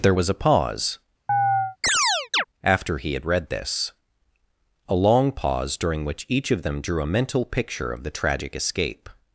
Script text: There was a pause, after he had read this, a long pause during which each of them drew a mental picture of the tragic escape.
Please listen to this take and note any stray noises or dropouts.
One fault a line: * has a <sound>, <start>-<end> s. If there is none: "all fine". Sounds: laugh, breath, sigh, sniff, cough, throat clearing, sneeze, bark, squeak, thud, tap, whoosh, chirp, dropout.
* has a chirp, 1.3-2.4 s